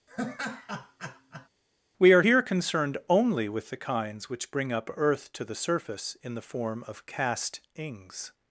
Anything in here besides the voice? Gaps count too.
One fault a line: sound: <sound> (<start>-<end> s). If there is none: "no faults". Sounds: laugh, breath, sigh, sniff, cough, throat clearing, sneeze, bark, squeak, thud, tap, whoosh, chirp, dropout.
sound: laugh (0.1-1.5 s)